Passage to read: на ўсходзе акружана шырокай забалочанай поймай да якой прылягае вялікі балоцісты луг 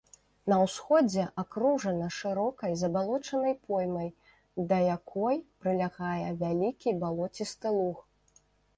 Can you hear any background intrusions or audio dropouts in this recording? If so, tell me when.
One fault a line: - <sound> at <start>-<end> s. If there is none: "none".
none